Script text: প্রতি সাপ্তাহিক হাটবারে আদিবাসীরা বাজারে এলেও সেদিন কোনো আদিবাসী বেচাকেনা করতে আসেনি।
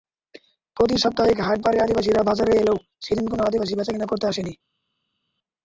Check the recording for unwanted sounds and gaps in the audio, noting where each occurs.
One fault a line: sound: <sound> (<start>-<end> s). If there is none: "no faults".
no faults